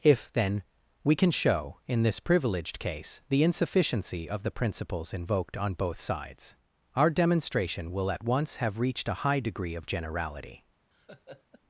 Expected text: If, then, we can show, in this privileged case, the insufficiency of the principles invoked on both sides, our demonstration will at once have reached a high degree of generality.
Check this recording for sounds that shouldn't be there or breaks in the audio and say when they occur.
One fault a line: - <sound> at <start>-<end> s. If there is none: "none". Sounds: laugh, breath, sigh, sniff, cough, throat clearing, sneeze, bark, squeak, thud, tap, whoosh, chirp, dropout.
- laugh at 10.9-11.6 s